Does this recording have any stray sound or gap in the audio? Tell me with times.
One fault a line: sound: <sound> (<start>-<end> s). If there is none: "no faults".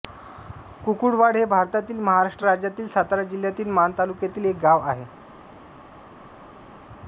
no faults